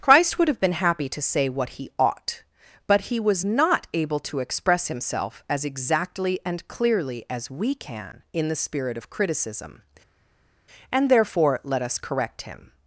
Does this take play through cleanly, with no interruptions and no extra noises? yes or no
yes